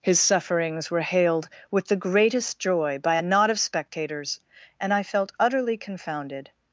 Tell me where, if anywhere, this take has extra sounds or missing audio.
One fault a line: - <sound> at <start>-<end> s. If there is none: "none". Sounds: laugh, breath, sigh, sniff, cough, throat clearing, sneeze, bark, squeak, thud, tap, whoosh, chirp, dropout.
none